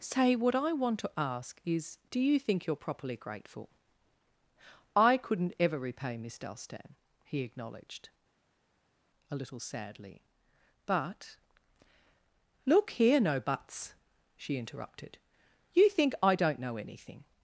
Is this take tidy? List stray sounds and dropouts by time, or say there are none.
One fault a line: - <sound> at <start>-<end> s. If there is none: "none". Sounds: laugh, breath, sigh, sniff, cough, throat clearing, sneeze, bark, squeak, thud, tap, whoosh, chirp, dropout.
none